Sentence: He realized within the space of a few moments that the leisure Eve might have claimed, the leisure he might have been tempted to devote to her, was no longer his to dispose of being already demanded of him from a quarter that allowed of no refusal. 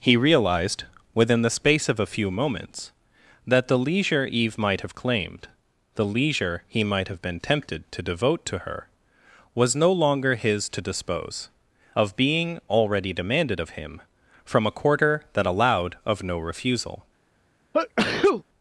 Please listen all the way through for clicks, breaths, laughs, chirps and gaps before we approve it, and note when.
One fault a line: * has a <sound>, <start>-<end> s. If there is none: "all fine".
* has a sneeze, 17.7-18.4 s